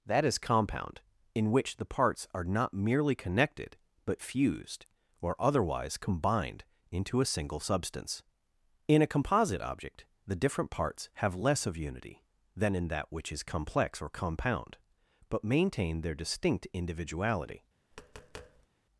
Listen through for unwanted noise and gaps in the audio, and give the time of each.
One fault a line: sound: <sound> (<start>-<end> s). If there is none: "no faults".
sound: tap (17.9-18.7 s)